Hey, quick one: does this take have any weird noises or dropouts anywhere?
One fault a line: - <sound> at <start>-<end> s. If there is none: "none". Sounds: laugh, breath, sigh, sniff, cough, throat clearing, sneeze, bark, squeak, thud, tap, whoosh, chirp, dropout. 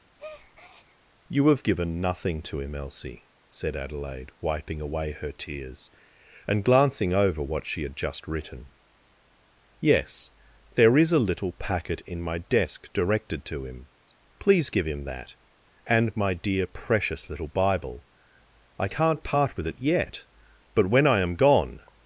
- breath at 0.2-1.0 s